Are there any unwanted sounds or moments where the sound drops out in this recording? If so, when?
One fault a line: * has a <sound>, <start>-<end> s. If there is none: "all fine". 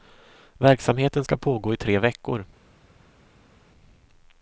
all fine